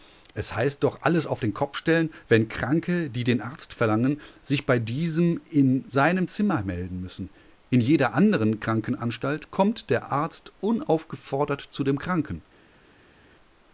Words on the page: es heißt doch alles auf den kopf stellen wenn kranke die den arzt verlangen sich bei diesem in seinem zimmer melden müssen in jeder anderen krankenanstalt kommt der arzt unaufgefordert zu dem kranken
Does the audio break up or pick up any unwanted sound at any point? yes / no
no